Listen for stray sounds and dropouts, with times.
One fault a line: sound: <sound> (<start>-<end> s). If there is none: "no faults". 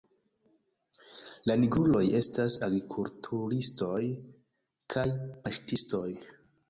no faults